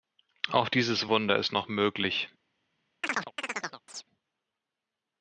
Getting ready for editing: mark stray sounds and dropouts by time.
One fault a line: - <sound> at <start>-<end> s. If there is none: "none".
- chirp at 3.0-4.1 s